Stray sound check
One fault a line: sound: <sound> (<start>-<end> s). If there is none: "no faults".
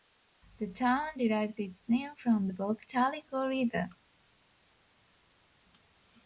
no faults